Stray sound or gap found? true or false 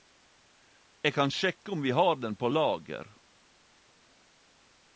false